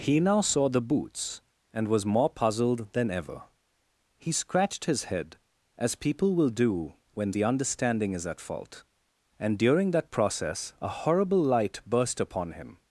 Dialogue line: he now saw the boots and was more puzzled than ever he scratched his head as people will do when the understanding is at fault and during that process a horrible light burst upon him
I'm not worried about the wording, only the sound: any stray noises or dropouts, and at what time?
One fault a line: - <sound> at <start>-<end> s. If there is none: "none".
none